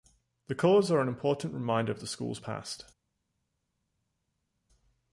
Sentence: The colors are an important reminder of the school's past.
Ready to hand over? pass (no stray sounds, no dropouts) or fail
pass